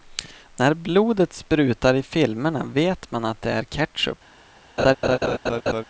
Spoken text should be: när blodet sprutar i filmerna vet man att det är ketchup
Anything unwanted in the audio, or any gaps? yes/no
yes